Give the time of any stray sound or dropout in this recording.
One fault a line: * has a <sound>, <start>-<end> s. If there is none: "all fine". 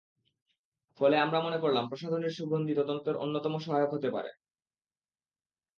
all fine